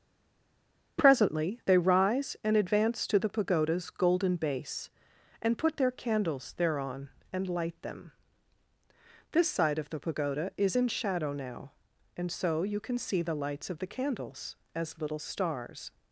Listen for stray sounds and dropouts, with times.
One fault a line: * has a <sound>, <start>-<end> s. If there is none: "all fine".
all fine